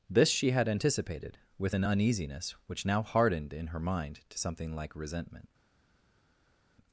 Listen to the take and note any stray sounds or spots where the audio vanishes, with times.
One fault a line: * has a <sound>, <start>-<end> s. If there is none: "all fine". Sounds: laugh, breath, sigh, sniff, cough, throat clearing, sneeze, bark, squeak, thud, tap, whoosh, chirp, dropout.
all fine